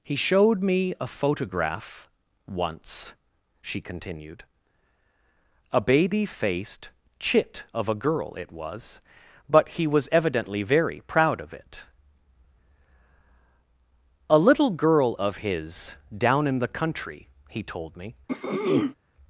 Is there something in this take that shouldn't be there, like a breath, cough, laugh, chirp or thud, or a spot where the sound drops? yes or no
yes